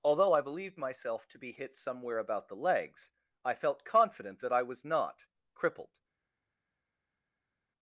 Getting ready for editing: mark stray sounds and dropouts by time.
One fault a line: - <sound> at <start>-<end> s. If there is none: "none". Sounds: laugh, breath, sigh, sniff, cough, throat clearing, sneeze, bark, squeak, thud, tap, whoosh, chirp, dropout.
none